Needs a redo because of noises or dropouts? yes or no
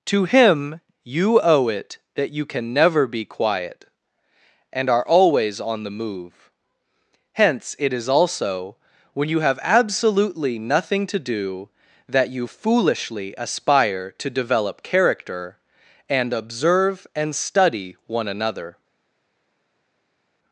no